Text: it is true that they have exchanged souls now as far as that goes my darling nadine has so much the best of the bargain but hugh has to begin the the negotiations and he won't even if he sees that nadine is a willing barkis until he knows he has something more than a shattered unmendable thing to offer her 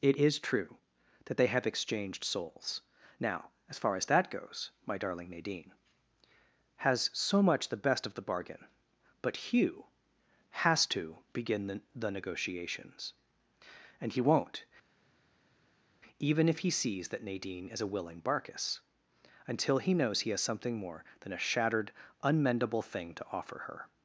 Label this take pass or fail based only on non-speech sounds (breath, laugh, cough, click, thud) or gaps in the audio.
pass